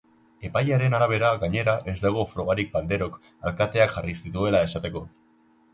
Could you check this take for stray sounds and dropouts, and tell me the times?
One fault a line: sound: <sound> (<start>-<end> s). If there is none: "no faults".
no faults